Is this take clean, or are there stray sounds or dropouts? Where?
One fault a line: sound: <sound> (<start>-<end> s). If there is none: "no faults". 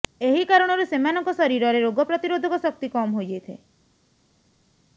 no faults